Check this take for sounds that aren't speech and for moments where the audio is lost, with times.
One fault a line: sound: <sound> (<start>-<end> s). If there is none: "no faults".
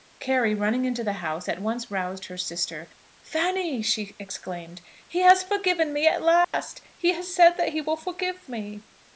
sound: dropout (6.4-6.5 s)